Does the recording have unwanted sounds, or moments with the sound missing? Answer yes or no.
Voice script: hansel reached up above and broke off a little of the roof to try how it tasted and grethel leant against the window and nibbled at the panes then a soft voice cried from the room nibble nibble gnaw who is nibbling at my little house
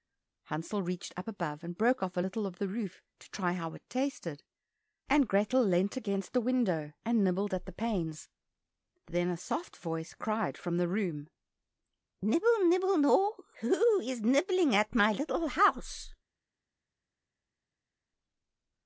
no